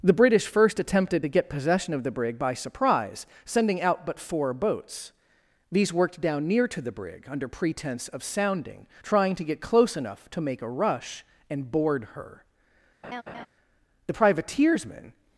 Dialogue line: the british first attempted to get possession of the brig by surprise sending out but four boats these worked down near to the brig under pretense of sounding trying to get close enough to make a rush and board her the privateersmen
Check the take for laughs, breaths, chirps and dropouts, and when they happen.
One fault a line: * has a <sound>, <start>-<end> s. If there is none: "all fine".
* has a laugh, 13.0-13.5 s